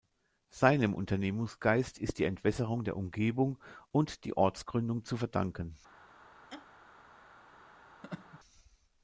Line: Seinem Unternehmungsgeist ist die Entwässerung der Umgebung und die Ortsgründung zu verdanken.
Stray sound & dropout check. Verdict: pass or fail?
fail